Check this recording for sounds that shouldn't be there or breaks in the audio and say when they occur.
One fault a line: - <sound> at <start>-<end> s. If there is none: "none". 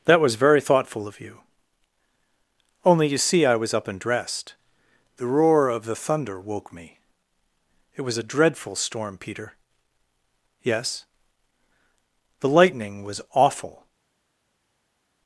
none